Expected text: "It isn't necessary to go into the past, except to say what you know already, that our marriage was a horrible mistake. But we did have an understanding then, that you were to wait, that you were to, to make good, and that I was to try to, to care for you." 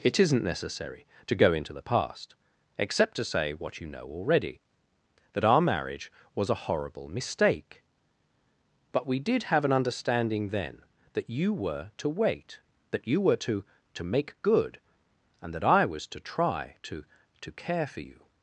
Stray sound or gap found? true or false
false